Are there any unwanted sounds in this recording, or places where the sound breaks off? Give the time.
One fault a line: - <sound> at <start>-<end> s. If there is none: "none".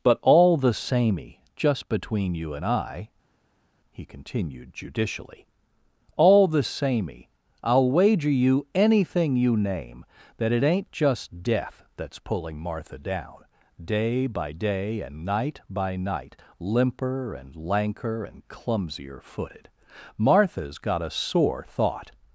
none